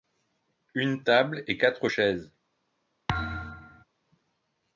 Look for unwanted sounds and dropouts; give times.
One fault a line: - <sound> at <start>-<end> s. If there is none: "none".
- thud at 3.1-3.8 s